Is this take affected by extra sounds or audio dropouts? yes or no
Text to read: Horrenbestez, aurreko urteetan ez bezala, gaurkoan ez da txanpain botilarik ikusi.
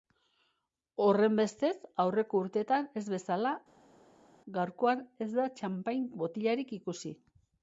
no